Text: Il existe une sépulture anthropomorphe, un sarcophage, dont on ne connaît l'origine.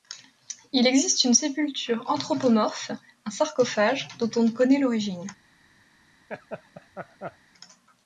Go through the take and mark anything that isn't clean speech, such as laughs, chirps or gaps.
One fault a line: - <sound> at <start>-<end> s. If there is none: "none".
- laugh at 6.3-7.4 s